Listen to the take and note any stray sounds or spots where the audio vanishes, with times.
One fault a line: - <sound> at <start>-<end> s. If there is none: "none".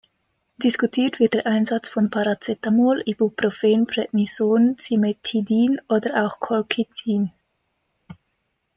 none